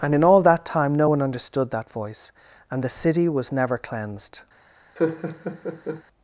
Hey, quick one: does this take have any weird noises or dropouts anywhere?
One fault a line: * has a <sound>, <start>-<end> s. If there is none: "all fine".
* has a laugh, 5.0-6.0 s